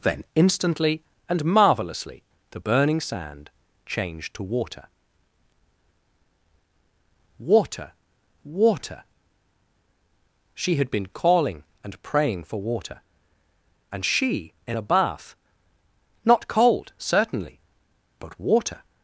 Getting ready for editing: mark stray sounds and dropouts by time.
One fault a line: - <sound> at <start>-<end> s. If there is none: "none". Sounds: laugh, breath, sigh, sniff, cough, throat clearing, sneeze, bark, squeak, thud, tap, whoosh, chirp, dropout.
none